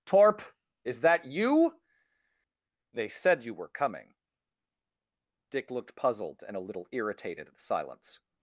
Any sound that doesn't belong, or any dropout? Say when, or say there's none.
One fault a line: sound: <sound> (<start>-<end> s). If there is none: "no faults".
no faults